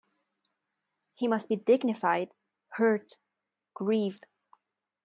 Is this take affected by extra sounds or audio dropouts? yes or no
no